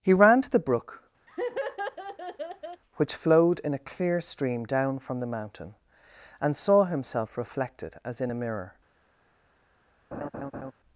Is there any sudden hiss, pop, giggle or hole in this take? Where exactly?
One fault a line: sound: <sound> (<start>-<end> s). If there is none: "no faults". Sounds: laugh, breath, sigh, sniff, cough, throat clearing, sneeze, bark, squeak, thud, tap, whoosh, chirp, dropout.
sound: laugh (1.3-2.8 s)
sound: laugh (10.1-10.7 s)